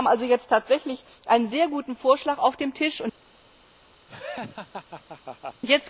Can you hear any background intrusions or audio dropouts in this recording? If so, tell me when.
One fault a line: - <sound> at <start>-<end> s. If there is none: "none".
- laugh at 4.1-5.6 s